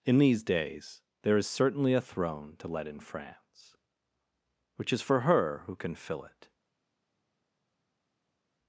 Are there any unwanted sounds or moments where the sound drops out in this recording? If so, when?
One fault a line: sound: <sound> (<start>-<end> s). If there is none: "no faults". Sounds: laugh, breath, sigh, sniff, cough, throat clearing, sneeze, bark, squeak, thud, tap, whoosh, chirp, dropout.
no faults